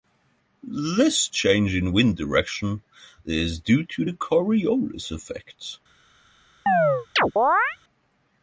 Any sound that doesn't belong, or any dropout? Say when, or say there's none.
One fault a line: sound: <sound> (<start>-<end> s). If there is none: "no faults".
sound: chirp (6.7-7.8 s)